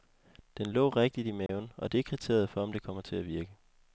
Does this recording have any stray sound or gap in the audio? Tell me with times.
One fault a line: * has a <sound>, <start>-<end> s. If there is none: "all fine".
* has a dropout, 1.5-1.5 s